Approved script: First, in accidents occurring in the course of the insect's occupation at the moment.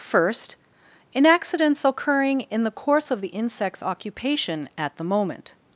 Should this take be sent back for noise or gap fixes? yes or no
no